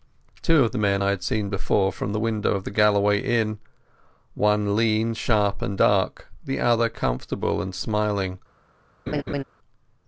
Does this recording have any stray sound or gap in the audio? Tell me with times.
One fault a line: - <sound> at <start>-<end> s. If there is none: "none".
- laugh at 9.1-9.4 s